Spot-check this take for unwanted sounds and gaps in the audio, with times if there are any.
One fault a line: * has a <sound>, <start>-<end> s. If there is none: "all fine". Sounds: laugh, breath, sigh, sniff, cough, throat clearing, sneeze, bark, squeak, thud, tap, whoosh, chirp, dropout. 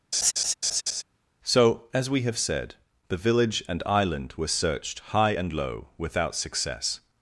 * has a laugh, 0.1-1.0 s